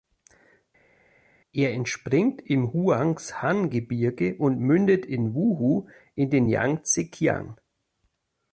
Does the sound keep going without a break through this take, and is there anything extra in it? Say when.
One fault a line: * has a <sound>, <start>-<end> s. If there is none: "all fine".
all fine